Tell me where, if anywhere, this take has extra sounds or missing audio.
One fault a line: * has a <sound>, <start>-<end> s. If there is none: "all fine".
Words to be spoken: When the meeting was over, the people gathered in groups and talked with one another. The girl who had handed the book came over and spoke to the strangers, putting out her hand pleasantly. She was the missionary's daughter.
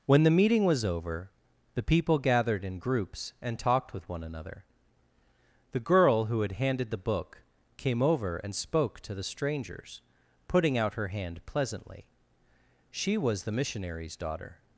all fine